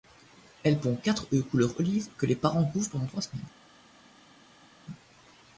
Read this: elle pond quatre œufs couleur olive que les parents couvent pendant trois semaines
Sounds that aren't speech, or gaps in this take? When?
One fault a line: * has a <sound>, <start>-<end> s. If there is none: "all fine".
all fine